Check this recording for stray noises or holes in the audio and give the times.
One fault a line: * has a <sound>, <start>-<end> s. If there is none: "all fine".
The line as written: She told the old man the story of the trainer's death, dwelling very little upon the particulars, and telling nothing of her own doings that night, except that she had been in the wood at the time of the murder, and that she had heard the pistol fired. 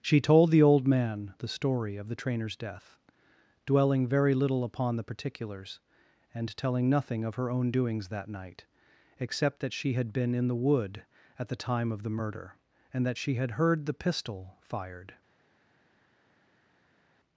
all fine